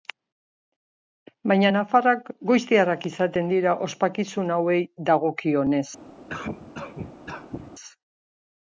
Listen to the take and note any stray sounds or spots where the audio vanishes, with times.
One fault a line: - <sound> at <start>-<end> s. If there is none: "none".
- cough at 6.3-7.7 s